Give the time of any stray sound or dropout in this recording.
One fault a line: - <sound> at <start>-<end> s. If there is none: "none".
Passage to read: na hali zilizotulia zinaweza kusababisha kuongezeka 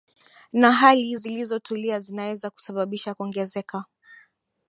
none